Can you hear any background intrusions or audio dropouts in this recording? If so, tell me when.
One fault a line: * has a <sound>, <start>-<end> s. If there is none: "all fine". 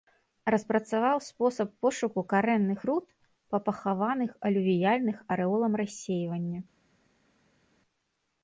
all fine